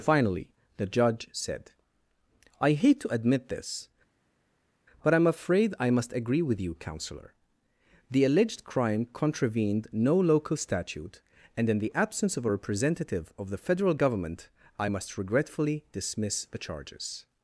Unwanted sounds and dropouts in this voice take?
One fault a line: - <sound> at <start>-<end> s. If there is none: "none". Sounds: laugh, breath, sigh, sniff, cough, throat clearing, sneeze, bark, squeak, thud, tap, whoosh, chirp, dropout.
none